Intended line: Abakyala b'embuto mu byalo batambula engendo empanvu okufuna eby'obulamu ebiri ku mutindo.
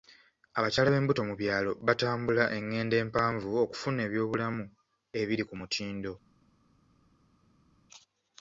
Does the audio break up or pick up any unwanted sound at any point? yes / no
no